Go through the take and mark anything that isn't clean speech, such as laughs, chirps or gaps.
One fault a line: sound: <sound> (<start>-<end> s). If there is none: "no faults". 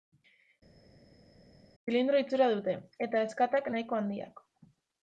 no faults